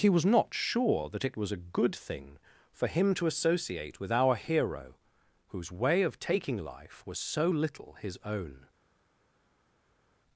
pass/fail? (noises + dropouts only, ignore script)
pass